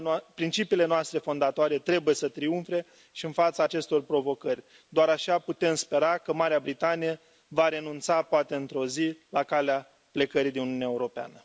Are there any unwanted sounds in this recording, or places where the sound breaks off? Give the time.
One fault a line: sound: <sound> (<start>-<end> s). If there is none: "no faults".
no faults